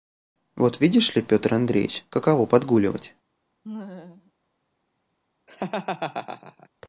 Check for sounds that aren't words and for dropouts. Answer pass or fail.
fail